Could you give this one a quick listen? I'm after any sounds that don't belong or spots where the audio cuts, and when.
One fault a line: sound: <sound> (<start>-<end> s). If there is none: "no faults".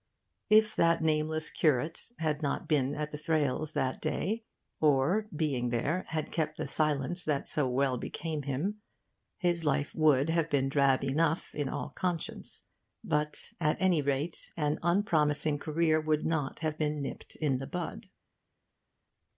no faults